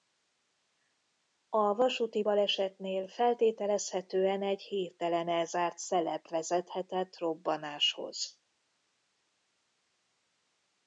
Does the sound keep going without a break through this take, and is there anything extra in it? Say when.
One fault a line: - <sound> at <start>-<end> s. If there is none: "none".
none